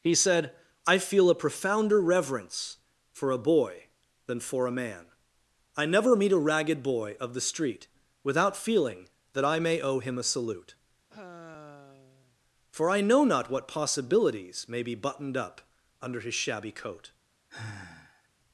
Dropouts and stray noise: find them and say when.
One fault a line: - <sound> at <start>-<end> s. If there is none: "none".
- sigh at 11.1-12.4 s
- sigh at 17.5-18.3 s